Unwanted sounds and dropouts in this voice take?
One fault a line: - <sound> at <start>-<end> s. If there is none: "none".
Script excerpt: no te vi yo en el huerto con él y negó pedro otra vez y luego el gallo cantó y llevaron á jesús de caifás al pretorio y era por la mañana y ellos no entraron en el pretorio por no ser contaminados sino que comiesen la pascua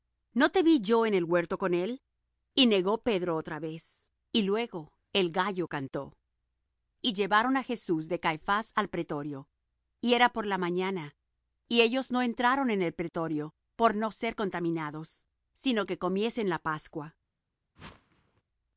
- whoosh at 17.8-18.4 s